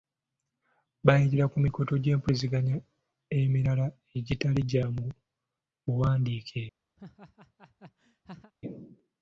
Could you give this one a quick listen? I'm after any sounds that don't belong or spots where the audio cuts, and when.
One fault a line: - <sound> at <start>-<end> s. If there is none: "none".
- laugh at 7.0-8.5 s